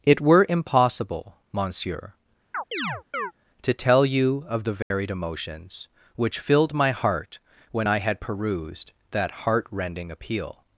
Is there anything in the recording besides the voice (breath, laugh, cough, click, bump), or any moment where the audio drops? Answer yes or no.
yes